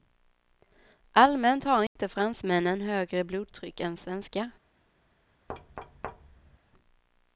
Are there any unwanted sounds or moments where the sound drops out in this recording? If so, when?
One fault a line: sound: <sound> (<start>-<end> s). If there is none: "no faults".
sound: dropout (1.9-2.0 s)
sound: thud (5.5-6.6 s)